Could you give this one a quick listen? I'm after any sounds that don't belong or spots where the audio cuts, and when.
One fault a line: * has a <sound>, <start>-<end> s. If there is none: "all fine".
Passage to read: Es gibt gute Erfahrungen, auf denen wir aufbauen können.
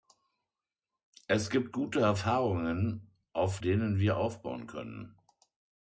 all fine